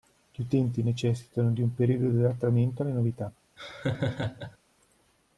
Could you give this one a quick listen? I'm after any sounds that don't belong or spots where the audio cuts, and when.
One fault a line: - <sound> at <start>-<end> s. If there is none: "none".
- laugh at 3.6-4.6 s